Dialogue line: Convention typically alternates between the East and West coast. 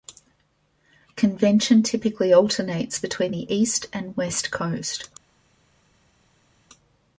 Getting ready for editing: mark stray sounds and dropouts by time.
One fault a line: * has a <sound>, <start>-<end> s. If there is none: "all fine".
all fine